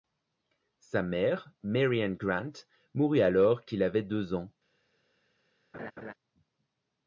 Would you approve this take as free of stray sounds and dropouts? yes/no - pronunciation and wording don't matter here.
no